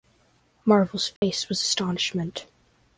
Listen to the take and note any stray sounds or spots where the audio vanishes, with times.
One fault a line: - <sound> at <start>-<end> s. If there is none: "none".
- dropout at 1.2-1.2 s